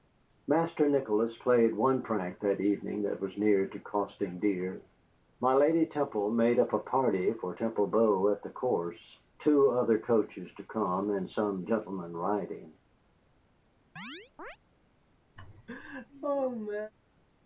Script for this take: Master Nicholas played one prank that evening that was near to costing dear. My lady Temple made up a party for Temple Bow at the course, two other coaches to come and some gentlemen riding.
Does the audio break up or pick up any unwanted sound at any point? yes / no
yes